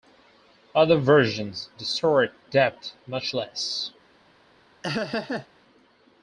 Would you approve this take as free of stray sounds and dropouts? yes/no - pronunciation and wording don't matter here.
no